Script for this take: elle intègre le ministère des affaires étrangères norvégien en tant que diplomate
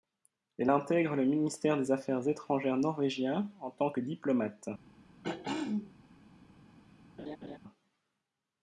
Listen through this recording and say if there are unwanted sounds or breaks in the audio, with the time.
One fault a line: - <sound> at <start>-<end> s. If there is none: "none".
- throat clearing at 5.2-5.9 s
- laugh at 7.2-7.6 s